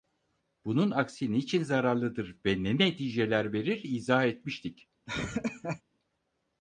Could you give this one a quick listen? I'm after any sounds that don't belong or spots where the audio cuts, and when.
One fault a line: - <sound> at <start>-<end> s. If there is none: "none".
- laugh at 5.1-5.8 s